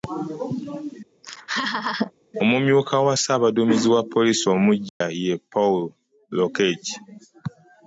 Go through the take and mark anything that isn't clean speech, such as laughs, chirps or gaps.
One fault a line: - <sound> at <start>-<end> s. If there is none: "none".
- laugh at 1.2-2.1 s
- dropout at 4.9-5.0 s